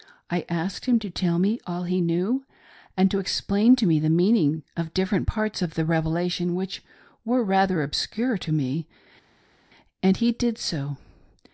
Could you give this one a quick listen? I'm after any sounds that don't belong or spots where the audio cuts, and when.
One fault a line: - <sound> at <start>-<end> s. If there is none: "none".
none